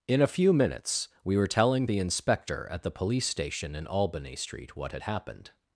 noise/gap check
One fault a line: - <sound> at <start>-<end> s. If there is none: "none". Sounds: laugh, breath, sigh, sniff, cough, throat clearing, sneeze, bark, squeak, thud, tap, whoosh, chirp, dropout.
none